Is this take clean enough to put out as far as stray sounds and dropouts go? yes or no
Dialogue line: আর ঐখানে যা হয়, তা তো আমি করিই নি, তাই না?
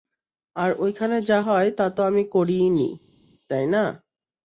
yes